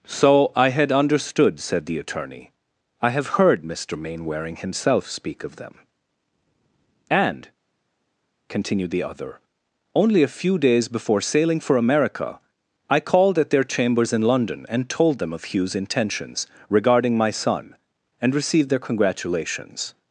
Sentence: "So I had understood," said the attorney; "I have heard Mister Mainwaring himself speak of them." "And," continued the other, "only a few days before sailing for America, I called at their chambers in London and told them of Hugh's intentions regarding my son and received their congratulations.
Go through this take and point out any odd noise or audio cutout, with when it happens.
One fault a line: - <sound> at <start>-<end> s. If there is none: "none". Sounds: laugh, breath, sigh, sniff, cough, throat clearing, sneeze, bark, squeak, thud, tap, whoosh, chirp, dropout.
none